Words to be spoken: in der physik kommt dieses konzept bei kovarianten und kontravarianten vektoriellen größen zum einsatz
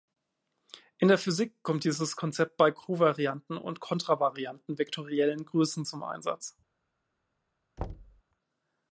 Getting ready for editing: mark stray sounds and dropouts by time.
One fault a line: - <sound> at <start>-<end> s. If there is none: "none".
- thud at 7.8-8.2 s